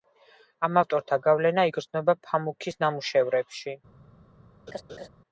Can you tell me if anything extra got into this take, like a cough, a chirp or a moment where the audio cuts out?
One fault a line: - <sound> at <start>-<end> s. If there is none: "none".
- laugh at 4.7-5.1 s